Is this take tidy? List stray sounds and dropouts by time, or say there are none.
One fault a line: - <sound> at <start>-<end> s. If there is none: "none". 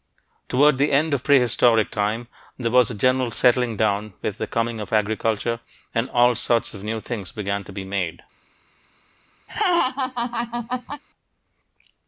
- laugh at 9.5-11.0 s